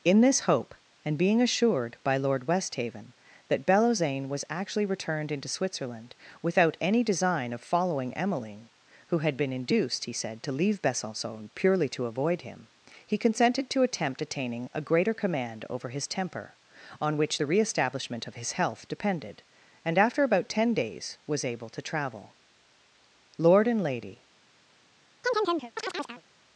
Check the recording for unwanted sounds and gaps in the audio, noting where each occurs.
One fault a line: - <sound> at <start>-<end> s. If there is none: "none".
- chirp at 25.2-26.2 s